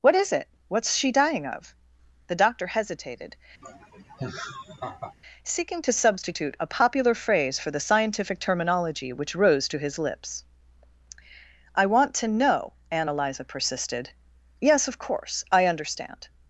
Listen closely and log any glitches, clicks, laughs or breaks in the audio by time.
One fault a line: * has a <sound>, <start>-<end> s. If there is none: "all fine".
* has a laugh, 3.6-5.1 s